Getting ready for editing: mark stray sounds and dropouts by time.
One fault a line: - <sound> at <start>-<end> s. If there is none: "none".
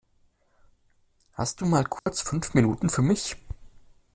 - dropout at 2.0-2.1 s